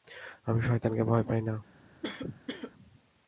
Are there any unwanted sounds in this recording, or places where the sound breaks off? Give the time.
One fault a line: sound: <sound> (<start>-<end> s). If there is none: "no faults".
sound: cough (2.0-2.7 s)